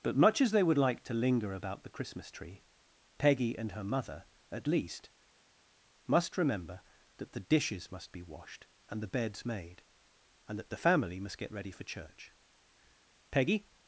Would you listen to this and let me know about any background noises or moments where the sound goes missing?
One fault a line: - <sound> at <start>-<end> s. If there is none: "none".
none